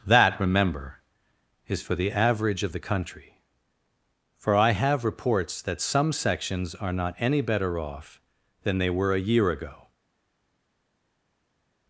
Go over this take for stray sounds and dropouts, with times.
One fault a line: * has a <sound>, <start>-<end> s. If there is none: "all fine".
all fine